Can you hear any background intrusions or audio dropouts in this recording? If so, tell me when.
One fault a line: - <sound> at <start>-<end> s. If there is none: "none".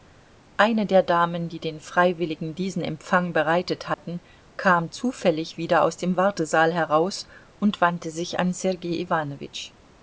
- dropout at 3.9-4.0 s